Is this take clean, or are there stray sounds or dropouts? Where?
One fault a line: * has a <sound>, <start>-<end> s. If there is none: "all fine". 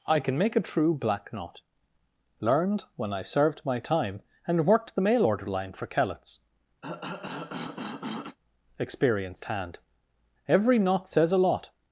* has a cough, 6.8-8.4 s